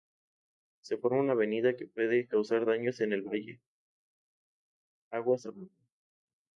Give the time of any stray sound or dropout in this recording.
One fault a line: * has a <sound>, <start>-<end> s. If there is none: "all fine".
all fine